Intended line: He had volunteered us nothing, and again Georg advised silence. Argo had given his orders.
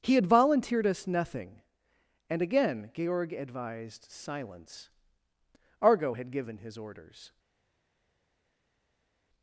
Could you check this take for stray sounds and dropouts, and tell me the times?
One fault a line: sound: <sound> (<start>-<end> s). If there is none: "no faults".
no faults